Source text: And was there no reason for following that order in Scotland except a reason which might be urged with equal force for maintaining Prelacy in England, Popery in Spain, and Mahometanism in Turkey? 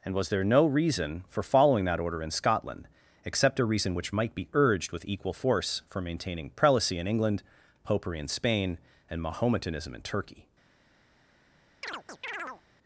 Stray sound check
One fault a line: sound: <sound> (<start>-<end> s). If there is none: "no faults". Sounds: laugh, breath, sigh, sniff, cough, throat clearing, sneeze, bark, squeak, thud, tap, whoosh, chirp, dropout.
sound: chirp (11.8-12.6 s)